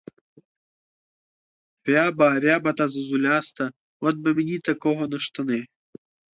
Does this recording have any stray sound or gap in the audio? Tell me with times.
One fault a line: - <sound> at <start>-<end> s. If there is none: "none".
none